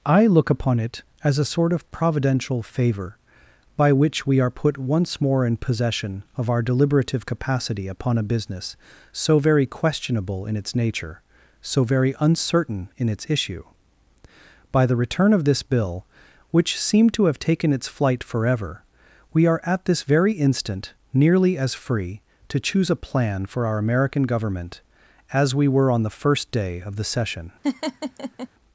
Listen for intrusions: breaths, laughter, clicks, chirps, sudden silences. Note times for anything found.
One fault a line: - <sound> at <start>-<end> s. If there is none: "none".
- laugh at 27.6-28.5 s